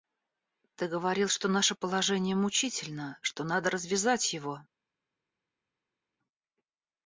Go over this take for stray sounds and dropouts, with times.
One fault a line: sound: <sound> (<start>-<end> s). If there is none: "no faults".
no faults